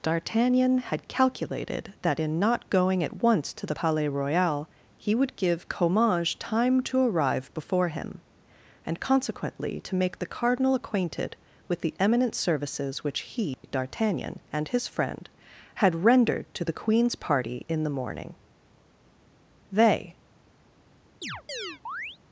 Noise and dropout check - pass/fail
fail